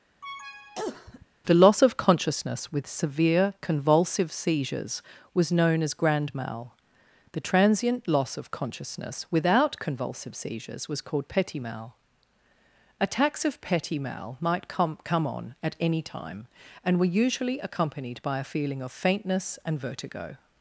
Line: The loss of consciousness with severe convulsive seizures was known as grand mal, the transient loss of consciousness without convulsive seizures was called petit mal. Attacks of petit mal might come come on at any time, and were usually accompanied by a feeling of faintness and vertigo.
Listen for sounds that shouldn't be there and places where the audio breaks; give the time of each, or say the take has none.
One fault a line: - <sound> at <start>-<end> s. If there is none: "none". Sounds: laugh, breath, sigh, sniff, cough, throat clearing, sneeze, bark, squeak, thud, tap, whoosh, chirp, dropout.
- cough at 0.2-1.3 s